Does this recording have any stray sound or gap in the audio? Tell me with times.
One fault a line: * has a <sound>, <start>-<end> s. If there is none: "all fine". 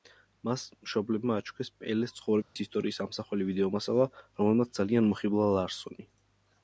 * has a dropout, 2.4-2.6 s